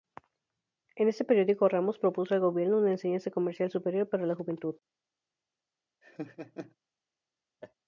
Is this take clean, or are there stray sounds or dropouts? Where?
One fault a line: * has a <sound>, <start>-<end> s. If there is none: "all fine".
* has a laugh, 6.0-6.8 s
* has a laugh, 7.6-7.7 s